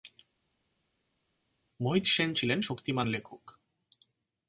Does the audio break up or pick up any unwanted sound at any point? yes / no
no